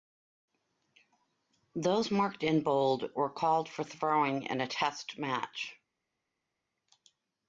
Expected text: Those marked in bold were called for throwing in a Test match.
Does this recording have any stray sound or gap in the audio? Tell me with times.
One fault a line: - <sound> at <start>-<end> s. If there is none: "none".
none